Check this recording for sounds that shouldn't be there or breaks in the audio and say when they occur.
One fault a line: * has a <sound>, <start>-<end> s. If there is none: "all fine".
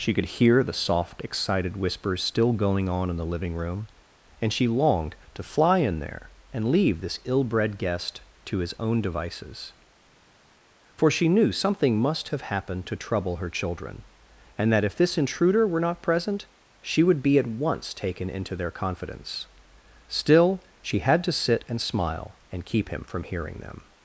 all fine